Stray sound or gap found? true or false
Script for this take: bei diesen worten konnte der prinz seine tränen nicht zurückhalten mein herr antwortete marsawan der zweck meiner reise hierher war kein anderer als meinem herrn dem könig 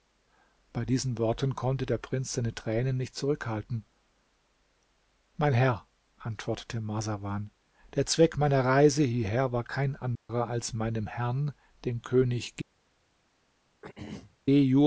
true